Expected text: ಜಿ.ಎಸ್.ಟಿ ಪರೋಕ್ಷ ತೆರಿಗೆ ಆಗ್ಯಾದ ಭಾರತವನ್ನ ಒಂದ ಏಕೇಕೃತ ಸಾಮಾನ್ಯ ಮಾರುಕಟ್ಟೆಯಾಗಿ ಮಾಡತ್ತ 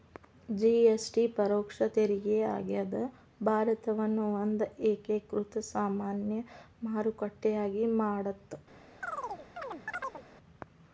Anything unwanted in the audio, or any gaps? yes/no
yes